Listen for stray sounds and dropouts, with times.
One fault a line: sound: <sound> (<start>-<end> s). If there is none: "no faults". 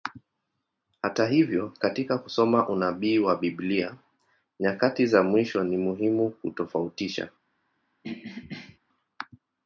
sound: throat clearing (8.0-8.8 s)